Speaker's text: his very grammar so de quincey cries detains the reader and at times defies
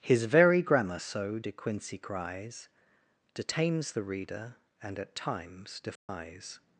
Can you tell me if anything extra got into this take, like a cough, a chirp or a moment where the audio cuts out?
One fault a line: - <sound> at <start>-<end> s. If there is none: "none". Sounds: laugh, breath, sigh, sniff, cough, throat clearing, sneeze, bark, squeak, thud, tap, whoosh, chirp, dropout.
- dropout at 6.0-6.1 s